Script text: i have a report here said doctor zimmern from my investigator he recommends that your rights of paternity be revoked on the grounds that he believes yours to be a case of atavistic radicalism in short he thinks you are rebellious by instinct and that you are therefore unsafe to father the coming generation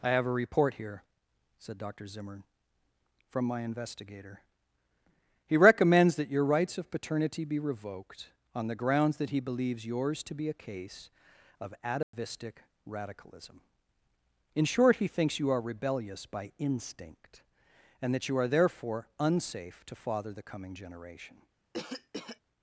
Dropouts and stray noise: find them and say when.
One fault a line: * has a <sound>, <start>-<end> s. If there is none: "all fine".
* has a dropout, 12.0-12.1 s
* has a cough, 21.7-22.4 s